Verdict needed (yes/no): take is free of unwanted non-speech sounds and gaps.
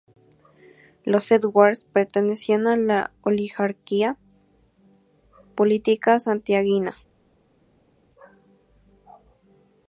yes